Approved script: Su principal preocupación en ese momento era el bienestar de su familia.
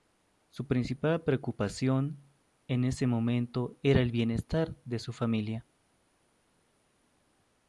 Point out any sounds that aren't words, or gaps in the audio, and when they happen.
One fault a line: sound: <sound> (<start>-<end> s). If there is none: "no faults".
no faults